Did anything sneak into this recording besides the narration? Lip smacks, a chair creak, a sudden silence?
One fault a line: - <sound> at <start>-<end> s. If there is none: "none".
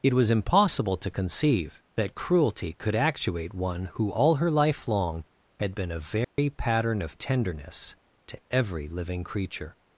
- dropout at 6.2-6.4 s